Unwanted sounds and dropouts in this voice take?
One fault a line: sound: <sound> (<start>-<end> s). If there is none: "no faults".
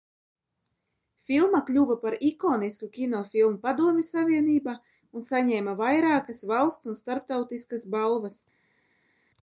no faults